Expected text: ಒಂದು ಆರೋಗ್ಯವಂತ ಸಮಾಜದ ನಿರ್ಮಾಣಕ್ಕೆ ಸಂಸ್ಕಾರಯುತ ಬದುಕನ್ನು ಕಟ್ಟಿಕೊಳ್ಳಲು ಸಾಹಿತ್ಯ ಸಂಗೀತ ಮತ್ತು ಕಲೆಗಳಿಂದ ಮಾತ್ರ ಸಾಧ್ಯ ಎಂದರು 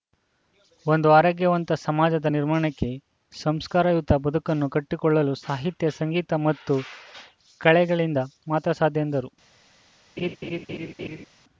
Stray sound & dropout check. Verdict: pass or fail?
fail